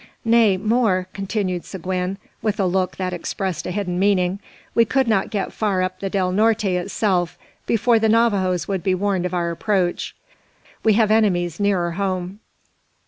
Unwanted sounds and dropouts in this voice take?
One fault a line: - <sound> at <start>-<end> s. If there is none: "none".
none